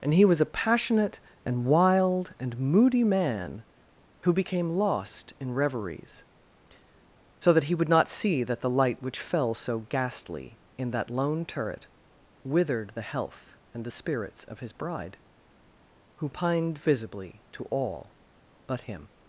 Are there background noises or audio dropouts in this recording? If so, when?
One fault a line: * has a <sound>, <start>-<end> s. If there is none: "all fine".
all fine